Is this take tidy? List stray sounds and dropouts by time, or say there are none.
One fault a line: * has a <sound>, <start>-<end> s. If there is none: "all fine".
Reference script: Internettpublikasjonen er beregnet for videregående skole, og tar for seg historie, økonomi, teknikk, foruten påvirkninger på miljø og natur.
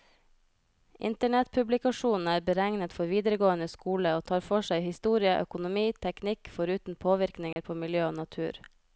* has a dropout, 7.5-7.6 s